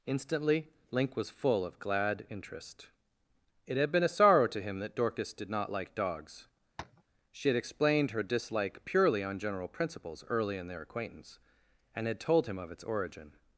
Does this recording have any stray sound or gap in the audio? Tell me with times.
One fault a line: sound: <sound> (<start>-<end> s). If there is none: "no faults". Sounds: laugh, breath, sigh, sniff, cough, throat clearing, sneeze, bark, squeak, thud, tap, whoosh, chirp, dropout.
sound: tap (6.8-7.0 s)